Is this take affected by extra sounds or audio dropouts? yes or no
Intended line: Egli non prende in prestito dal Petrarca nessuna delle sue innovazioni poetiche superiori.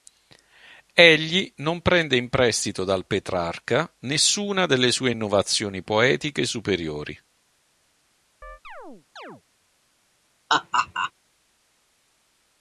yes